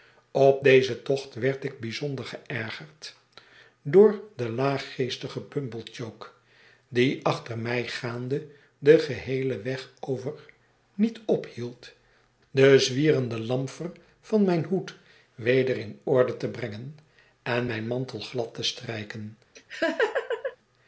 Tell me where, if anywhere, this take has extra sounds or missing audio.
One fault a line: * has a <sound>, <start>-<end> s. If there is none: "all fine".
* has a laugh, 19.6-20.6 s